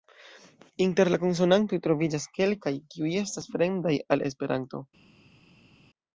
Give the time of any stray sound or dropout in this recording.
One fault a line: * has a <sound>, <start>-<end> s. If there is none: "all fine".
all fine